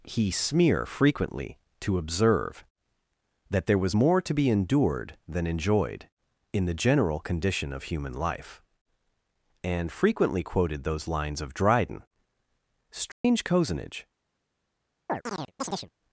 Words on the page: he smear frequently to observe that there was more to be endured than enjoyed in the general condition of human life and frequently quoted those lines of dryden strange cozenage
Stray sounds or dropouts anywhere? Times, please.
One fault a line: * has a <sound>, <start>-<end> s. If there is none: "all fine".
* has a dropout, 13.1-13.2 s
* has a chirp, 15.1-15.9 s